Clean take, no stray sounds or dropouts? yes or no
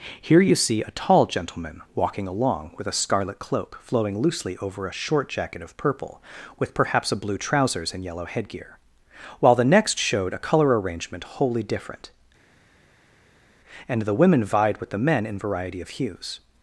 yes